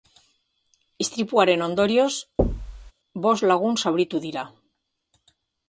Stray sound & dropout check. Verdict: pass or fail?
fail